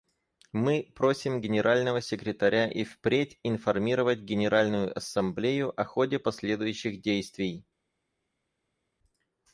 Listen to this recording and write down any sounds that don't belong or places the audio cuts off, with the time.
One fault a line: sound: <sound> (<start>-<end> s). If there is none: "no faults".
no faults